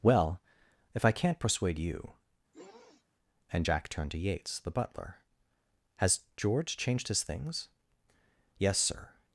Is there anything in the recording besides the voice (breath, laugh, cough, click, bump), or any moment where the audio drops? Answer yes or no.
yes